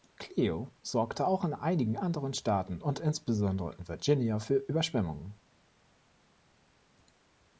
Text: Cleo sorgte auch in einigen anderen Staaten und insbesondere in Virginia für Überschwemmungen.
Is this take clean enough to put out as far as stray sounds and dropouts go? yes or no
yes